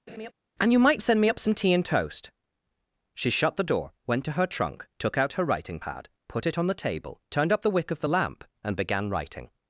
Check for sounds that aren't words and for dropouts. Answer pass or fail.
fail